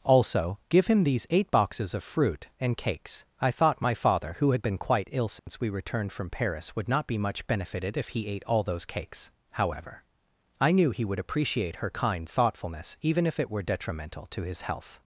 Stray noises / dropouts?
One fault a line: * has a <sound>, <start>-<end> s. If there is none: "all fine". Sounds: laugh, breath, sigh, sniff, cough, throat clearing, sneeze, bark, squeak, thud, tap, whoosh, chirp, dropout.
* has a dropout, 5.4-5.5 s